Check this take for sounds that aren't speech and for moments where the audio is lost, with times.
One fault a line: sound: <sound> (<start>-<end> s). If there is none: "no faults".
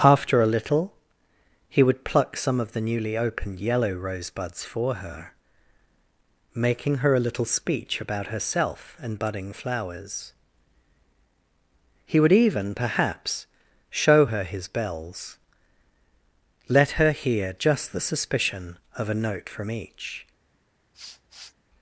sound: sniff (20.9-21.5 s)